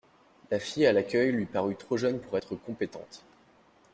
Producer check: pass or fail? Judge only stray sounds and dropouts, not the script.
pass